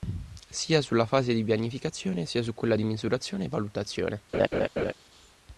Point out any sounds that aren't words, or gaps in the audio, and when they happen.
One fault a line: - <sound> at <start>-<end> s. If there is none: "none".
- laugh at 4.3-4.9 s